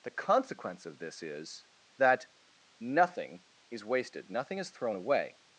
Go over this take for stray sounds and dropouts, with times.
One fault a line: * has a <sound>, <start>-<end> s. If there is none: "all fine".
all fine